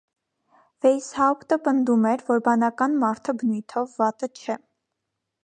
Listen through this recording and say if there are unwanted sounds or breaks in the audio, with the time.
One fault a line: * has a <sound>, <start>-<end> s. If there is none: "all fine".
all fine